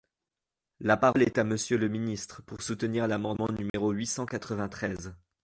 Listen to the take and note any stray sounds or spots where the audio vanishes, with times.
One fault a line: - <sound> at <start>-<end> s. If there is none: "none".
- dropout at 3.7-3.7 s